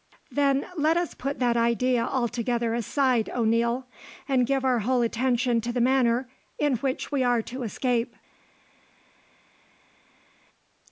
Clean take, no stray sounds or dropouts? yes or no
yes